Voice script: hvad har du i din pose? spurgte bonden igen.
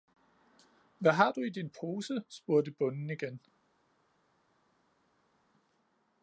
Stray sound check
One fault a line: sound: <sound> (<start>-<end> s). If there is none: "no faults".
no faults